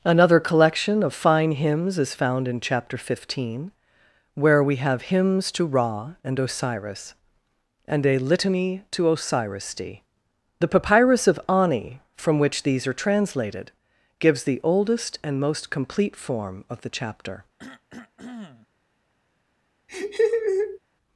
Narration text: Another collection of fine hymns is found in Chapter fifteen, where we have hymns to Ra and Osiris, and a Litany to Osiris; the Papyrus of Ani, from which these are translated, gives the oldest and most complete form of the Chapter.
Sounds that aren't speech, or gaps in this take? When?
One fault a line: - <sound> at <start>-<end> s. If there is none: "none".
- cough at 17.6-18.7 s
- laugh at 19.9-20.8 s